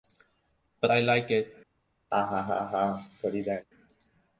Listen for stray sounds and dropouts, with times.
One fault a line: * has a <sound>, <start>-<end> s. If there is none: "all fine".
* has a laugh, 2.1-3.7 s